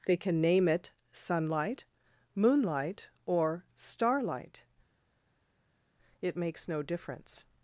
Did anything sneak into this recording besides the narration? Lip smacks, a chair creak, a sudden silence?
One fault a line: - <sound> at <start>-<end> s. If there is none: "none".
none